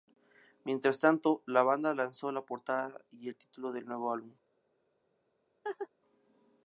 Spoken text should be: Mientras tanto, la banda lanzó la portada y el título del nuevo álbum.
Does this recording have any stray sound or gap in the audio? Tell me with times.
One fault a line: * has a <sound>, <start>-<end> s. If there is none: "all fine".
* has a laugh, 5.6-5.9 s